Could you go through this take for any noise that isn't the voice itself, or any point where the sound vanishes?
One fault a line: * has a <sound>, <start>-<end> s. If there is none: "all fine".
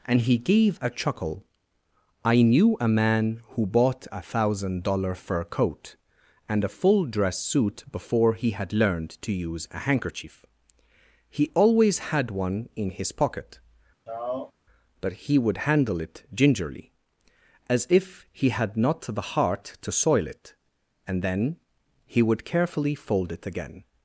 * has a sigh, 14.1-14.5 s